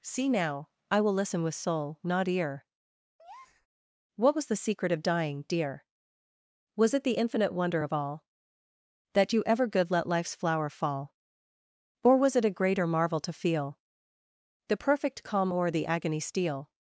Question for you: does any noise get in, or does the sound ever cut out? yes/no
yes